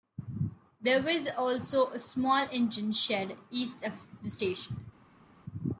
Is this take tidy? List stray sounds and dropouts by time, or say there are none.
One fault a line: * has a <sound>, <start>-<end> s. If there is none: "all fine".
all fine